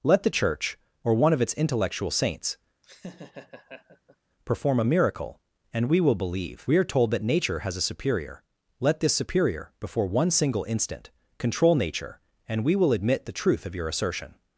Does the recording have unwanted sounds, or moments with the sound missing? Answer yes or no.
yes